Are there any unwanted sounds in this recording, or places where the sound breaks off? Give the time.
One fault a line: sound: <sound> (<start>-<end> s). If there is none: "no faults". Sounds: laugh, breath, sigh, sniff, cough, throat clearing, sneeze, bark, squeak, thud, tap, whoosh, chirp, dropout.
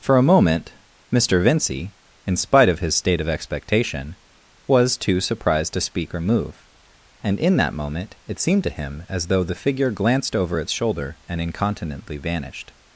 no faults